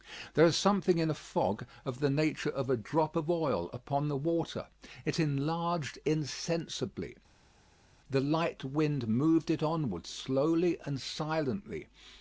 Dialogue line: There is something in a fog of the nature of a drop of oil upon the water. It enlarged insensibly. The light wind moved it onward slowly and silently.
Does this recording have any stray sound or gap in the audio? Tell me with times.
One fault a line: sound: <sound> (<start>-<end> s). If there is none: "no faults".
no faults